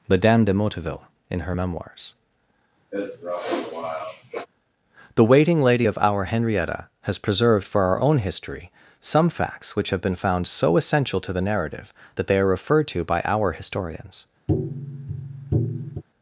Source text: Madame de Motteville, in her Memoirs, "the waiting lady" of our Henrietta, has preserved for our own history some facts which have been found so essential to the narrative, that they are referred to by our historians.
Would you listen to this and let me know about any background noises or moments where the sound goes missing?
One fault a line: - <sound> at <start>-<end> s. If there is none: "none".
- sniff at 2.9-4.5 s
- tap at 14.5-16.0 s